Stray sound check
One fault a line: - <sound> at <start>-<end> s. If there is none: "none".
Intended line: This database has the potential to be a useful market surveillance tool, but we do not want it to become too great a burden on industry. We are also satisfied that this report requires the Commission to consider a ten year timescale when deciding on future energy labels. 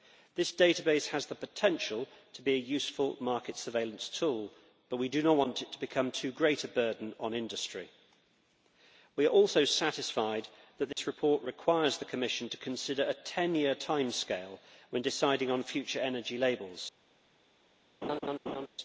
- dropout at 10.9-11.0 s
- laugh at 18.0-18.7 s